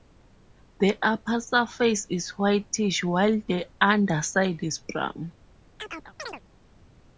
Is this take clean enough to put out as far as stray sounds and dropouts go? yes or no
no